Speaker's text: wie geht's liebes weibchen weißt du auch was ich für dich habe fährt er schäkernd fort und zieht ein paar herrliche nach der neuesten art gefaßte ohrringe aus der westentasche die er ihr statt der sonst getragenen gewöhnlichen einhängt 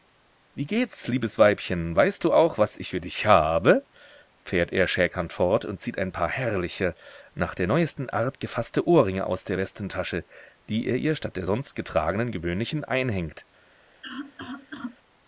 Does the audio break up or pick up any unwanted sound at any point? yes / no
yes